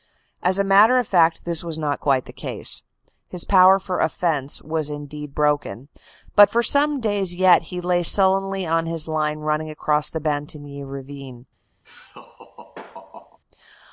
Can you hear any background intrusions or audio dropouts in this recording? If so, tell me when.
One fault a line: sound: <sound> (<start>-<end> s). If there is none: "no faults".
sound: laugh (11.8-13.4 s)